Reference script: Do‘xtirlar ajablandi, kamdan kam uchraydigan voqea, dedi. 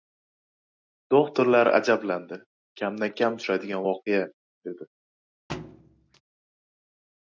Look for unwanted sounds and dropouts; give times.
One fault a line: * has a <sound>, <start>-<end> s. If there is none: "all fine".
* has a thud, 5.5-6.2 s